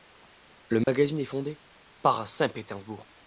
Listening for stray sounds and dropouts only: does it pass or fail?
fail